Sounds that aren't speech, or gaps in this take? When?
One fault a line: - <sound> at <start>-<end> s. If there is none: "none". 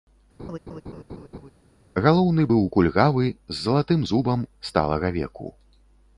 - laugh at 0.4-1.5 s